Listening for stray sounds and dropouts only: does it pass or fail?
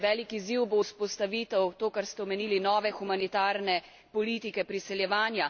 pass